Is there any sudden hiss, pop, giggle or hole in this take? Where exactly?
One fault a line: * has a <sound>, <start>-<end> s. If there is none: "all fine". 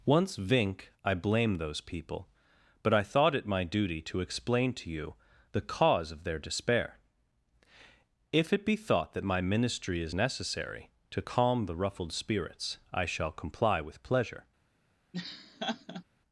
* has a laugh, 15.1-16.0 s